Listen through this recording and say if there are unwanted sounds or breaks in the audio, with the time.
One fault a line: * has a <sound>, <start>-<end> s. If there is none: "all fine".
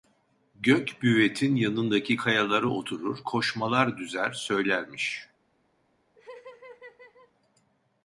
* has a laugh, 6.2-7.3 s